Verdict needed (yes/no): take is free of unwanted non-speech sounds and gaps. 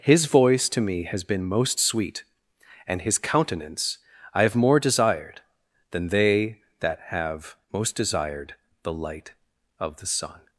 yes